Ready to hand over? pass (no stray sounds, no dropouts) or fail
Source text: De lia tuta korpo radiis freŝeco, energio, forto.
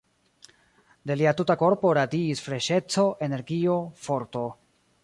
pass